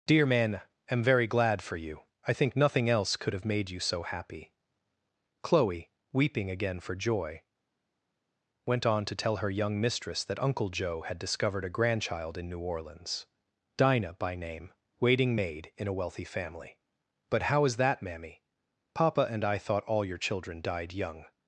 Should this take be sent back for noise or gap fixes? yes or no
no